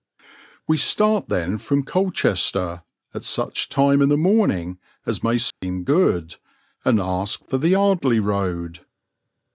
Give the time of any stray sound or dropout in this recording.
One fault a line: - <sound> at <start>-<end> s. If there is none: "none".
- dropout at 5.5-5.6 s